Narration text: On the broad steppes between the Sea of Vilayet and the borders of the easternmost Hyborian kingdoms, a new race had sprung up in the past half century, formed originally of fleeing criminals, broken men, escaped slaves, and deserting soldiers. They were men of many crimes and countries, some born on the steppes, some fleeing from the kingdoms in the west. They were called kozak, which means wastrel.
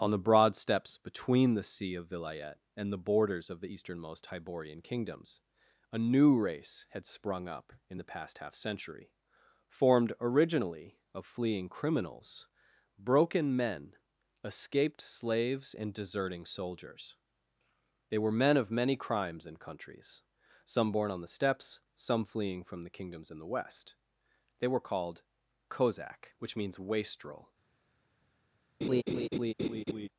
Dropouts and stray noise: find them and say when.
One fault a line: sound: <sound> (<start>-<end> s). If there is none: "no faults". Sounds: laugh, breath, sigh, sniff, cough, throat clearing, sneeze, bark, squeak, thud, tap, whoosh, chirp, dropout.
sound: laugh (28.8-30.1 s)